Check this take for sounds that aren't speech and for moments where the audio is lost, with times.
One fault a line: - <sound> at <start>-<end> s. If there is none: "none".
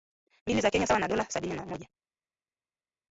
none